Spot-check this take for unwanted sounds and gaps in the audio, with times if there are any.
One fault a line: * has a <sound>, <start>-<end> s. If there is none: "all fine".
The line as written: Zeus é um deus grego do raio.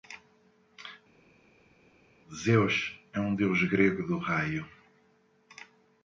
all fine